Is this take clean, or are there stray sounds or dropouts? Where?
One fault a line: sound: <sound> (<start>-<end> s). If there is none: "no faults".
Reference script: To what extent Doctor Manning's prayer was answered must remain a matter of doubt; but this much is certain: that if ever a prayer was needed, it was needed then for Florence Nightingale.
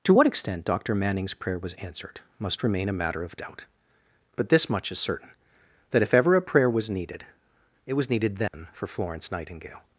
sound: dropout (8.5-8.5 s)